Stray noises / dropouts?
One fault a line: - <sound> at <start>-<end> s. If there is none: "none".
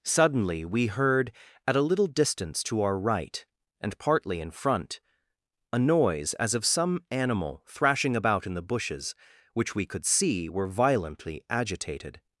none